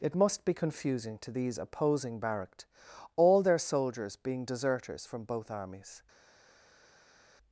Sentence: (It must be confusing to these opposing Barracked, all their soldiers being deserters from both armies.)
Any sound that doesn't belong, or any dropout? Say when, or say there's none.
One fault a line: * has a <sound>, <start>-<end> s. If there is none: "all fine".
all fine